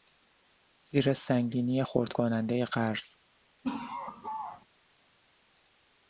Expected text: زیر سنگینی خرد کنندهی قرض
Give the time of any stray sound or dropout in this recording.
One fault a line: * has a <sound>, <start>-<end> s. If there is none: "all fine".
* has a laugh, 3.6-4.7 s